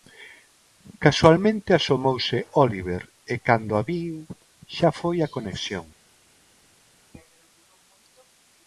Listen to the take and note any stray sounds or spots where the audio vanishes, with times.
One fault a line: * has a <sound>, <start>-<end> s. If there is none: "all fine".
all fine